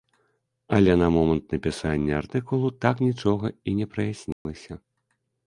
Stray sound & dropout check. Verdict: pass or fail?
fail